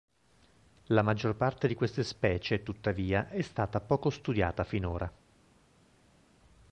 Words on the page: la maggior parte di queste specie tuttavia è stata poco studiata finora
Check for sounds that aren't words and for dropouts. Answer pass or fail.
pass